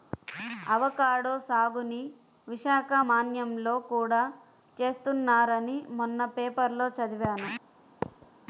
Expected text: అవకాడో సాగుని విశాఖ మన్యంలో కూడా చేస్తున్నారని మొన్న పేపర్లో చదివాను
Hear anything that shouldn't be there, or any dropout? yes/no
yes